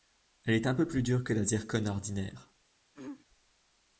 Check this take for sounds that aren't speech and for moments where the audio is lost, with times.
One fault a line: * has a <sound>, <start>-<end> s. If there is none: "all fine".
* has a throat clearing, 2.9-3.3 s